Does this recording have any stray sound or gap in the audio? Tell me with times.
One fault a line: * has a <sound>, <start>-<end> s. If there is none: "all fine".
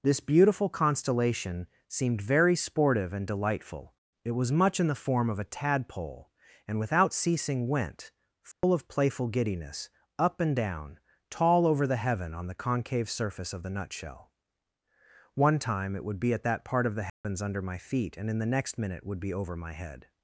* has a dropout, 8.5-8.6 s
* has a dropout, 17.1-17.2 s